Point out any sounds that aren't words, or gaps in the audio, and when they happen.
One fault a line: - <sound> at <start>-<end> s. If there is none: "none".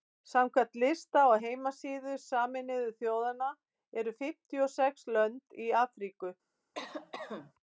- cough at 6.7-7.5 s